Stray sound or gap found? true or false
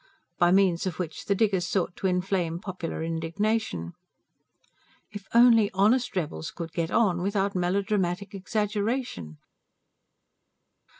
false